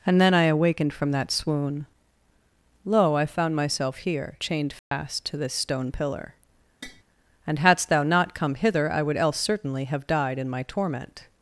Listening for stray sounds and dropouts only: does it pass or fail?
fail